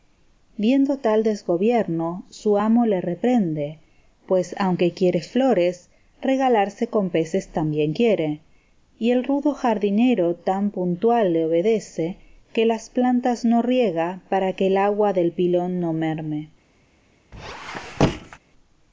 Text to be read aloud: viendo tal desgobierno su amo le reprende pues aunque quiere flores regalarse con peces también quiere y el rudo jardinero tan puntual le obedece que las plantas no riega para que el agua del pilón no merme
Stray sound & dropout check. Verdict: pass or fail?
fail